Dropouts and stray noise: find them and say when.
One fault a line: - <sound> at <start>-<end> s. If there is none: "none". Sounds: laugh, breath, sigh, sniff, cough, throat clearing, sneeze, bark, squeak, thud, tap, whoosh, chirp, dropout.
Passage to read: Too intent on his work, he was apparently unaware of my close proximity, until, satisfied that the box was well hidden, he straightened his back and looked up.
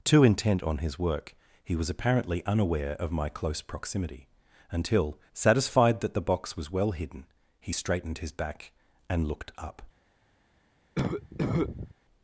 - cough at 11.0-11.9 s